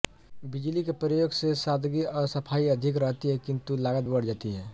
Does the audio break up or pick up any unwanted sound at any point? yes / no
no